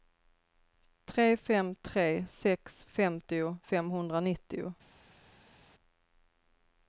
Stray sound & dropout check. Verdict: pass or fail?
pass